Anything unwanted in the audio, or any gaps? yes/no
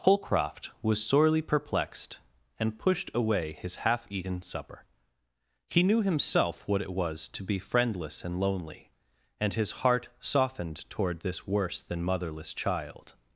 no